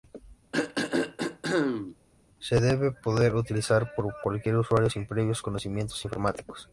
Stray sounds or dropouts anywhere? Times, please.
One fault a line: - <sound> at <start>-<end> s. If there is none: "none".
- throat clearing at 0.5-2.0 s